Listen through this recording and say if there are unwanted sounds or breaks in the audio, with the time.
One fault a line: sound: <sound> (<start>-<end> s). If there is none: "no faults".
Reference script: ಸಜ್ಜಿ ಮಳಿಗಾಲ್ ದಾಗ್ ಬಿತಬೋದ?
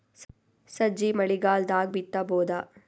no faults